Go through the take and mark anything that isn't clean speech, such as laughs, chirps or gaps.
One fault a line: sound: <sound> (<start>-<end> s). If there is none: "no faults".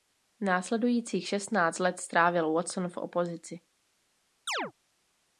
sound: chirp (4.5-4.7 s)